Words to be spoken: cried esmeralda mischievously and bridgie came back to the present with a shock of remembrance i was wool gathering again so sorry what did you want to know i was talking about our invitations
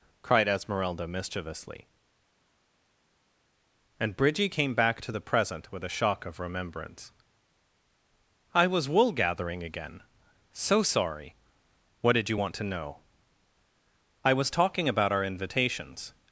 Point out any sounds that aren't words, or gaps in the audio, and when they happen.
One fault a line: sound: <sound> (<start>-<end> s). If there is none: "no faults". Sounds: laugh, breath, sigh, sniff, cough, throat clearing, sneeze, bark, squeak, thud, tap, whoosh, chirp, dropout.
no faults